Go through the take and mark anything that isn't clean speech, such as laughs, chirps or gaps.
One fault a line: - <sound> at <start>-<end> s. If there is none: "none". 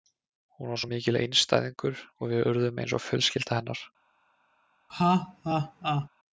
- laugh at 4.9-6.1 s